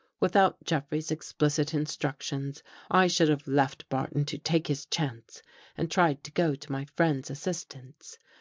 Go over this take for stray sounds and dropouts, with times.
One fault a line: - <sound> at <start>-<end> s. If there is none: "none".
none